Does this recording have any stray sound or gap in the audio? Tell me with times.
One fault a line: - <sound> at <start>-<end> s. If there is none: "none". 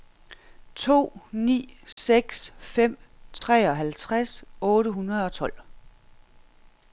- dropout at 1.9-2.0 s
- dropout at 3.4-3.4 s